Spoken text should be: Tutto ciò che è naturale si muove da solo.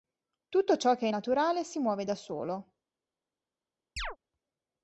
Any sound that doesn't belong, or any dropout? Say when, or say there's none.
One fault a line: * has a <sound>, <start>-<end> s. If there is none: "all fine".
* has a chirp, 4.0-4.2 s